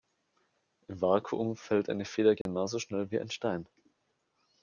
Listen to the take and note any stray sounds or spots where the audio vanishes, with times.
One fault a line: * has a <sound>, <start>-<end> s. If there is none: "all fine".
* has a dropout, 2.4-2.5 s